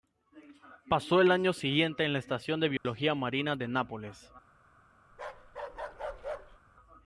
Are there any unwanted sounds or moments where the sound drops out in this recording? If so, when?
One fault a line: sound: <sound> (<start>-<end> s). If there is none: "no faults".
sound: dropout (2.8-2.8 s)
sound: bark (5.1-6.6 s)